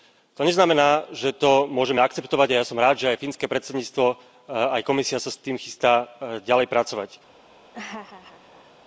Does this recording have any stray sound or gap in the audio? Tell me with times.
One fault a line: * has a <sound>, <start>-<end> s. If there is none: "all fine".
* has a laugh, 7.7-8.8 s